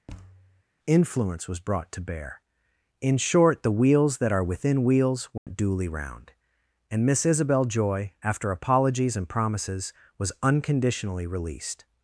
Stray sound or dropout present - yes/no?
yes